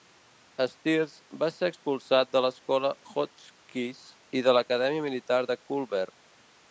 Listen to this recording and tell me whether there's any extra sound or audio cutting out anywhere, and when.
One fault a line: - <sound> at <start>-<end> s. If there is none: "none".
none